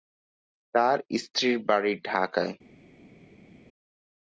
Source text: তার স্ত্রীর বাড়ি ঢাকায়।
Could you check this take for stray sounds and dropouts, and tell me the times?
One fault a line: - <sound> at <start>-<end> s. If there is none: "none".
none